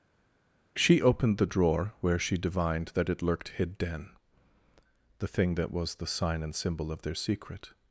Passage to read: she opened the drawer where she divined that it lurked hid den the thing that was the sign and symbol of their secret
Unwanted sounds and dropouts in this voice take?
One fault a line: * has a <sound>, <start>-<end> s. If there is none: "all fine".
all fine